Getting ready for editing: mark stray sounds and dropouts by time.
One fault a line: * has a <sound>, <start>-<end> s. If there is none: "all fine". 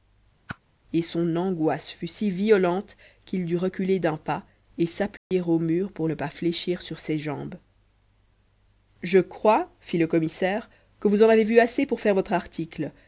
* has a whoosh, 0.5-0.6 s
* has a dropout, 5.2-5.3 s